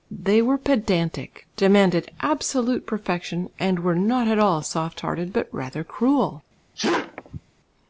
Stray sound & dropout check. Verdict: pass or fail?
fail